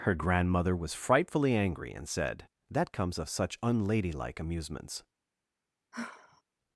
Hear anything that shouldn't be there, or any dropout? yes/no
yes